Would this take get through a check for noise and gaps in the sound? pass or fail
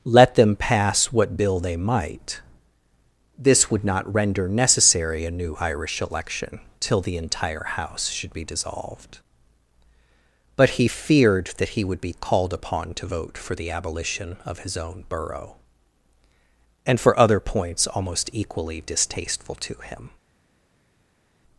pass